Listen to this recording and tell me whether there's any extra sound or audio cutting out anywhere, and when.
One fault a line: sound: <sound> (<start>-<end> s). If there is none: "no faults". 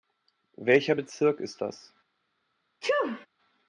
sound: sneeze (2.8-3.3 s)